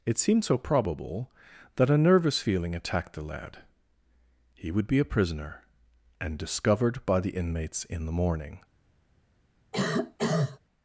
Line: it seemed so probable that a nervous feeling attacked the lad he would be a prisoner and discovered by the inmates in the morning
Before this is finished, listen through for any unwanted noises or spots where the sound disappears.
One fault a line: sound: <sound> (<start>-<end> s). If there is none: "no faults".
sound: cough (9.7-10.6 s)